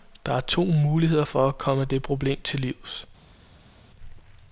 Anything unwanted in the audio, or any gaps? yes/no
no